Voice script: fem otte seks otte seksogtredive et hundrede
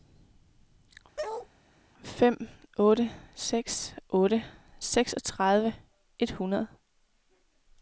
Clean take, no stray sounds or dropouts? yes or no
no